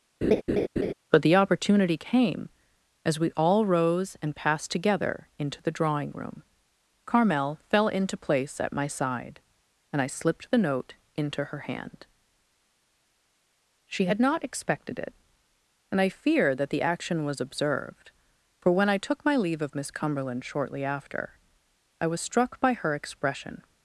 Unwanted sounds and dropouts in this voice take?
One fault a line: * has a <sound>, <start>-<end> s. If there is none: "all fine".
* has a laugh, 0.2-0.9 s